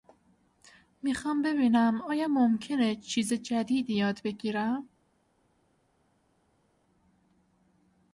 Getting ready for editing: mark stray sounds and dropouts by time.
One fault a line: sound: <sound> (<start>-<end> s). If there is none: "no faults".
no faults